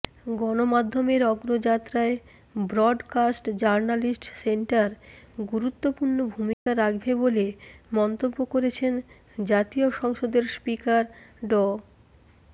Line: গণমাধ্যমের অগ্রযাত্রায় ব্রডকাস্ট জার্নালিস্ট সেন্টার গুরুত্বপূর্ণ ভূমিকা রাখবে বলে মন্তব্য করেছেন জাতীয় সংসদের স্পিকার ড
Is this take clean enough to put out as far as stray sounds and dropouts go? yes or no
no